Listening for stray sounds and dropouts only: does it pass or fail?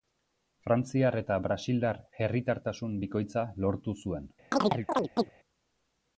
fail